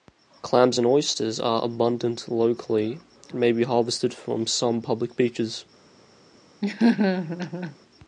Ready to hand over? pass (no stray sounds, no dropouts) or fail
fail